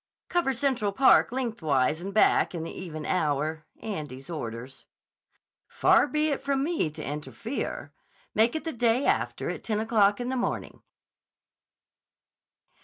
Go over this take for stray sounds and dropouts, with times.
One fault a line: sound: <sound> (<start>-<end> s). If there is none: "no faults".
no faults